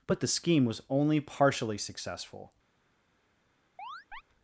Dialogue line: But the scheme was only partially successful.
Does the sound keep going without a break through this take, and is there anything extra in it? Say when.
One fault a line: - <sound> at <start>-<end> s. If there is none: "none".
- chirp at 3.8-4.2 s